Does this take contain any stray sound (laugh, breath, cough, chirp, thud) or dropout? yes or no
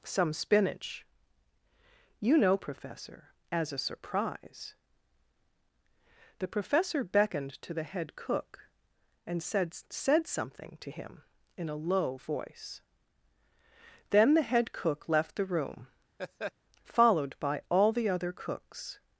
yes